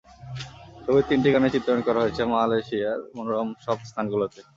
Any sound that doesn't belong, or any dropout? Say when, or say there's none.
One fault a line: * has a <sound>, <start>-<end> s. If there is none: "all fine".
all fine